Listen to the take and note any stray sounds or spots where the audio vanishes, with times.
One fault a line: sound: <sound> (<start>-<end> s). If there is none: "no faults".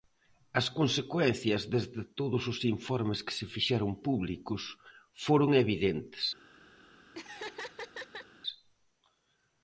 sound: laugh (7.1-8.3 s)